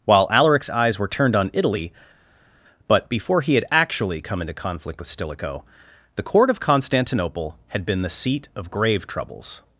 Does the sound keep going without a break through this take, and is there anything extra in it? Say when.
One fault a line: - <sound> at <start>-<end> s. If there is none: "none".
none